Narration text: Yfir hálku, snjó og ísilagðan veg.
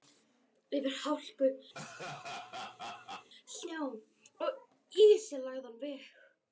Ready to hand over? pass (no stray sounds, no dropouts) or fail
fail